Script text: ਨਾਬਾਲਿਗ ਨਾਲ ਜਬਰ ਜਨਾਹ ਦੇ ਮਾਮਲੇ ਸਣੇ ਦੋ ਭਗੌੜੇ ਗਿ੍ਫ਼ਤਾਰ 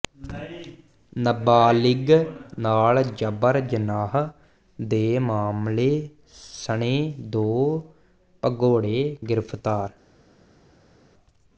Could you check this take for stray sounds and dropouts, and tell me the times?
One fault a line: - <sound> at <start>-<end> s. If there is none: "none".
none